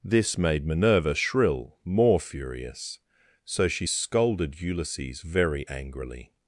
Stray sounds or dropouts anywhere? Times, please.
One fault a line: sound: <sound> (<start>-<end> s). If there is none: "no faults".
no faults